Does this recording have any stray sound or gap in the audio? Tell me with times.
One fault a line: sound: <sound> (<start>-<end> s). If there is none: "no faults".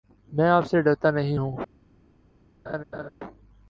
sound: laugh (2.7-3.1 s)